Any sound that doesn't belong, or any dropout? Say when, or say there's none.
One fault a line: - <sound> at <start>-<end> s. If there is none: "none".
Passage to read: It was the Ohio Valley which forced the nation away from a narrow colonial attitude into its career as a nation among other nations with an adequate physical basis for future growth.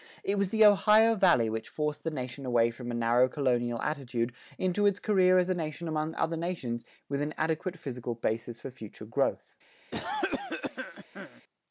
- cough at 9.9-11.4 s